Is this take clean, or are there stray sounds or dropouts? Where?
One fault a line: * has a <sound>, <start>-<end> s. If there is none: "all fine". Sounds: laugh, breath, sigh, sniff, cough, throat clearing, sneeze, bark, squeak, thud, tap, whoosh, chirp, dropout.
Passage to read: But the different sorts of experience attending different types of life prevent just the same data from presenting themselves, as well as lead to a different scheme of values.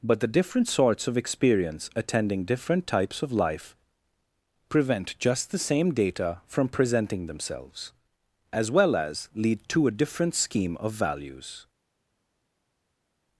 all fine